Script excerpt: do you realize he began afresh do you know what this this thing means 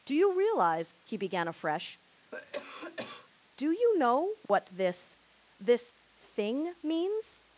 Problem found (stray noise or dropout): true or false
true